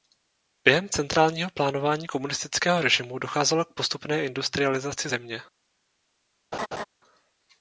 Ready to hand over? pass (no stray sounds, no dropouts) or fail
fail